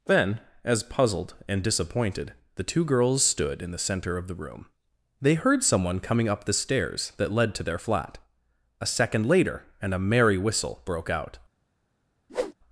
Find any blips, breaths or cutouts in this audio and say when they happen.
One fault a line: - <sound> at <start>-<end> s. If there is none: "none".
- whoosh at 12.3-12.5 s